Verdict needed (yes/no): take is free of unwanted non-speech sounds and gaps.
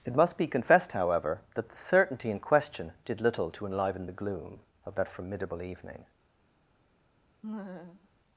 no